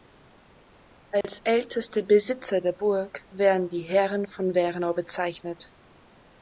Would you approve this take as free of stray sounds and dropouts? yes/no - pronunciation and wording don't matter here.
no